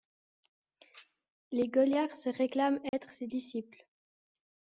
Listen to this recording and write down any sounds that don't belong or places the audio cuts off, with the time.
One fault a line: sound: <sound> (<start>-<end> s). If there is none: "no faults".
sound: dropout (2.9-2.9 s)